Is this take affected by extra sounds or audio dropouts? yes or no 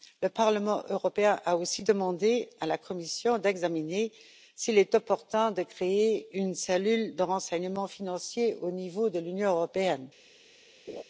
yes